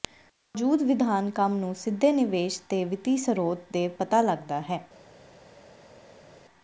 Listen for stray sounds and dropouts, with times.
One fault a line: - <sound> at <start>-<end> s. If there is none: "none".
none